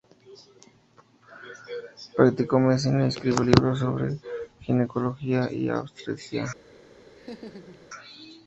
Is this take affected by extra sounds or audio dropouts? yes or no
yes